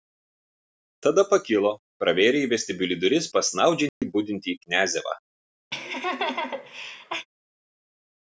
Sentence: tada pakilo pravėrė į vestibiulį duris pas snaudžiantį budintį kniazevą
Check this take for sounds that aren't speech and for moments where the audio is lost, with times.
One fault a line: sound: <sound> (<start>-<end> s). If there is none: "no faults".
sound: dropout (3.9-4.0 s)
sound: laugh (5.7-7.3 s)